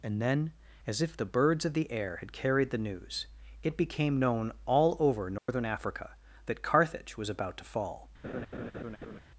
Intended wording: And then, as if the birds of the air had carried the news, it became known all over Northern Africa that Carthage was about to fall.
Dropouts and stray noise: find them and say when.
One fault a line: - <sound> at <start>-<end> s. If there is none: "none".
- dropout at 5.4-5.5 s
- laugh at 8.2-9.2 s